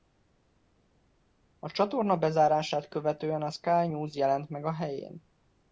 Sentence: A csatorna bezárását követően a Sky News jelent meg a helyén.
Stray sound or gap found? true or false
false